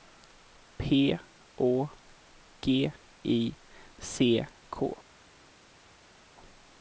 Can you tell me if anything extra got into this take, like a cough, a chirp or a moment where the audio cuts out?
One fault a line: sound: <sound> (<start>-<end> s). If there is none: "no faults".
no faults